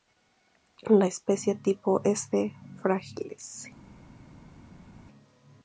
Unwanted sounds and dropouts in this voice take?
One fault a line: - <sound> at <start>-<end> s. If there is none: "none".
none